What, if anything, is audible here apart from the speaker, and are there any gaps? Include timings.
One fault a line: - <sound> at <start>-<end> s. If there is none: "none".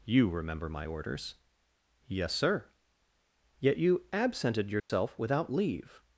- dropout at 4.8-4.9 s